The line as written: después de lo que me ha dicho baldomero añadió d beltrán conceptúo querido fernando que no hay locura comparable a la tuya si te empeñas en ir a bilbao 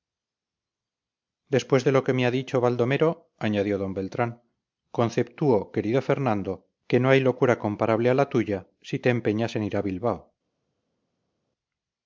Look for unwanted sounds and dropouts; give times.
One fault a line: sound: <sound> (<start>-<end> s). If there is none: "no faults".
no faults